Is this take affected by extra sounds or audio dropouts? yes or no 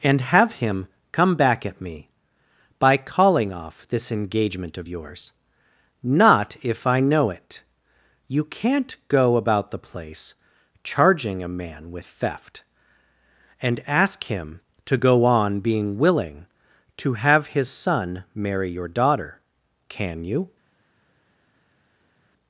no